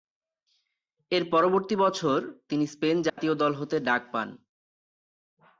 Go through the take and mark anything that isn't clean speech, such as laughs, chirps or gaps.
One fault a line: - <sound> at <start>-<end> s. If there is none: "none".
- dropout at 3.1-3.2 s